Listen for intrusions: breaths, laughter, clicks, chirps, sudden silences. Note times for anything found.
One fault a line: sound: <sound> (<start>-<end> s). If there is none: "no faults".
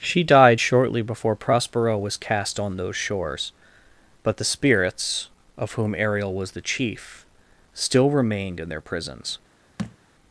sound: thud (9.8-10.0 s)